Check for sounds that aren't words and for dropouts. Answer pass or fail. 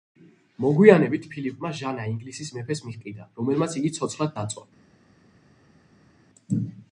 pass